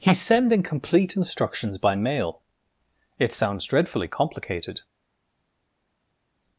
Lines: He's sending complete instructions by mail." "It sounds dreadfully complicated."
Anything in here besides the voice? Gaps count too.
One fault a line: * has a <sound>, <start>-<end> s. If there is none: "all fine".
all fine